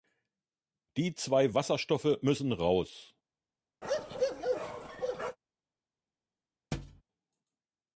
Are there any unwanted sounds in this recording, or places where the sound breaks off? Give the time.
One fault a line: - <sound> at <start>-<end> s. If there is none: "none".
- bark at 3.8-5.4 s
- thud at 6.7-7.0 s